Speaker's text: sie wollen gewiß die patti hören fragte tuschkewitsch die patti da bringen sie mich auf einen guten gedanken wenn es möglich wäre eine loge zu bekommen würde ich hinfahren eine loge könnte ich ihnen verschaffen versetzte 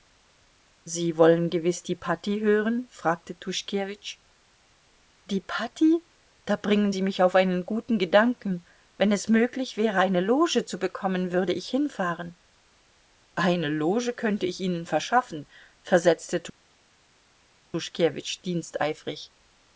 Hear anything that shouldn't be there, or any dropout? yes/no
no